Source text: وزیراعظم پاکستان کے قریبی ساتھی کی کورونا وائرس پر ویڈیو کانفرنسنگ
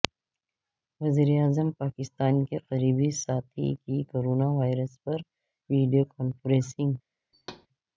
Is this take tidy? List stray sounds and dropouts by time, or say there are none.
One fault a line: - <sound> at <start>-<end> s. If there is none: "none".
- thud at 7.3-7.7 s